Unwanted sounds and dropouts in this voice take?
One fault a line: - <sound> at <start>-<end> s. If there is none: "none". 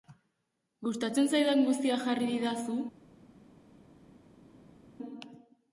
none